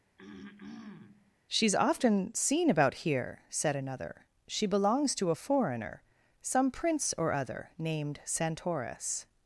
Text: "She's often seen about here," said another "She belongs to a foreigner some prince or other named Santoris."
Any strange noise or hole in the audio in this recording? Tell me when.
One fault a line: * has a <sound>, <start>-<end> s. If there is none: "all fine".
* has a throat clearing, 0.2-1.4 s